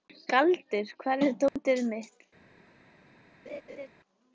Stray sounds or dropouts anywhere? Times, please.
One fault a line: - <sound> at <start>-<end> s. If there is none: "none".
- dropout at 1.5-1.6 s
- laugh at 3.5-3.9 s